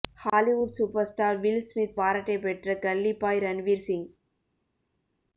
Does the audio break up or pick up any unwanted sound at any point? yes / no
no